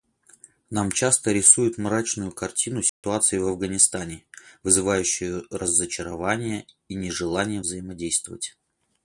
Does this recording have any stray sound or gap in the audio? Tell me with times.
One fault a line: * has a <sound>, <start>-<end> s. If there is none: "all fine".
* has a dropout, 2.9-3.0 s